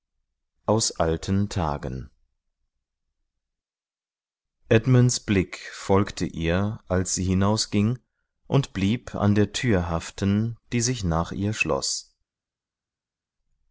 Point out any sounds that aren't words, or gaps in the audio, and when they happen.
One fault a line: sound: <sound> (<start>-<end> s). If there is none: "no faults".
no faults